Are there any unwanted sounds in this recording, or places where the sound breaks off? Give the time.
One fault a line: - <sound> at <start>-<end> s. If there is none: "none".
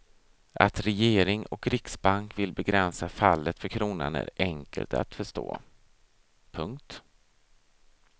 none